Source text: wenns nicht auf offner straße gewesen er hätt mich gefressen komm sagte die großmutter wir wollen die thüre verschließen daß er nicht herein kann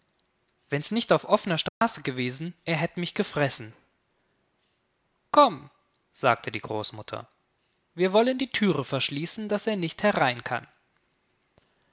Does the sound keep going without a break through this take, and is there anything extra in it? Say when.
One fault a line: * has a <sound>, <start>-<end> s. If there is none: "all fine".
* has a dropout, 1.7-1.8 s